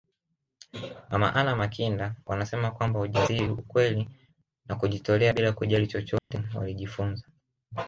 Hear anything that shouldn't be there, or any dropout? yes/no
yes